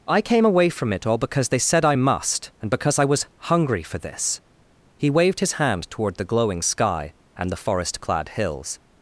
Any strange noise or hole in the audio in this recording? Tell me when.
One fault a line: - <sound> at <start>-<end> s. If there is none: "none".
none